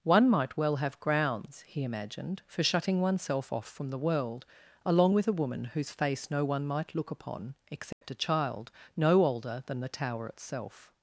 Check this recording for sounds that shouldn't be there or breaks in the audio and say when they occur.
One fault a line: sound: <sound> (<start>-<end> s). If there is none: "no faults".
sound: dropout (7.9-8.0 s)